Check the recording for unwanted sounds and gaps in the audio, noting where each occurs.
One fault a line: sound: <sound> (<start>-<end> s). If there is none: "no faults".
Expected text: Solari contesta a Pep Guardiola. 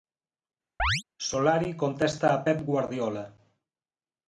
sound: chirp (0.8-1.0 s)